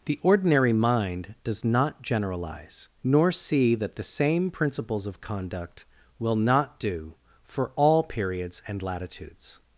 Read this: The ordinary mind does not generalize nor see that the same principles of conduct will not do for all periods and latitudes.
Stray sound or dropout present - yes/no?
no